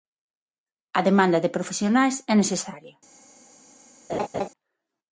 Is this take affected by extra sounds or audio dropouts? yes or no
yes